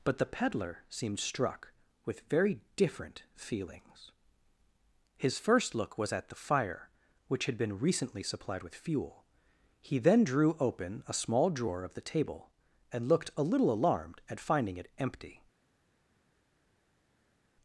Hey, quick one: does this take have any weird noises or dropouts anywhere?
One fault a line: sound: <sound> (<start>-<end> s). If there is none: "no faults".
no faults